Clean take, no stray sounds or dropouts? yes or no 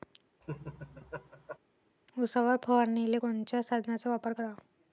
no